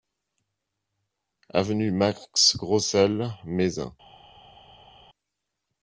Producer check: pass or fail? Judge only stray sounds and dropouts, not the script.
pass